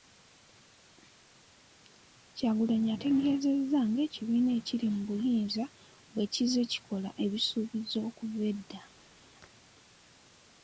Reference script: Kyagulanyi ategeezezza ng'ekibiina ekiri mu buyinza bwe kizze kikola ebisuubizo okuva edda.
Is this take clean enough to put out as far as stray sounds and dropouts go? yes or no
yes